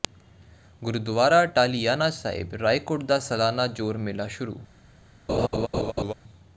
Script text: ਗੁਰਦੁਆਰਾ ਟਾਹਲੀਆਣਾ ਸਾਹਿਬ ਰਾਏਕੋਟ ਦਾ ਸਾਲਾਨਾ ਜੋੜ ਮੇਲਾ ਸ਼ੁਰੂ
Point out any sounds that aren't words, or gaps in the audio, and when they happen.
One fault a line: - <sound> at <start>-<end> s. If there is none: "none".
- laugh at 5.3-6.1 s